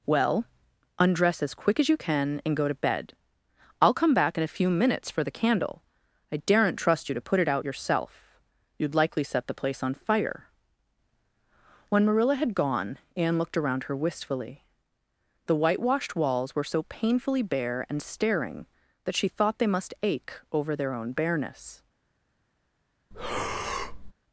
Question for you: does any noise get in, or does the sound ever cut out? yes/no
yes